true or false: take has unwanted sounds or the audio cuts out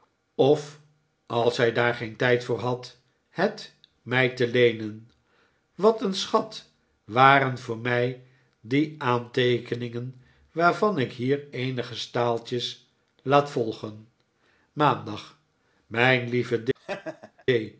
true